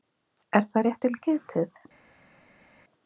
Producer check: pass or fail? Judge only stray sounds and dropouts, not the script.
pass